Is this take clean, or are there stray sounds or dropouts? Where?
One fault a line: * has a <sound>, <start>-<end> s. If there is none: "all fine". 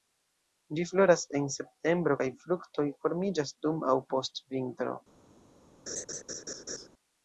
* has a laugh, 5.9-6.9 s